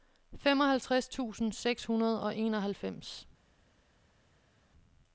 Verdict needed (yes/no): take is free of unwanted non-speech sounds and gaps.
yes